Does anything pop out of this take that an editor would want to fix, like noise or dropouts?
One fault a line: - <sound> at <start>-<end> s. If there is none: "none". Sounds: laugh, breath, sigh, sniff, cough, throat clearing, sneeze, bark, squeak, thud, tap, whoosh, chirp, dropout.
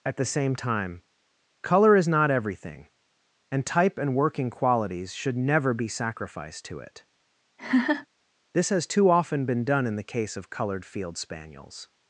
- laugh at 7.6-8.1 s